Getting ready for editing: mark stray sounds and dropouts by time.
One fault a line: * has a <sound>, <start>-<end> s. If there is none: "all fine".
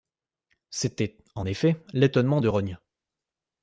all fine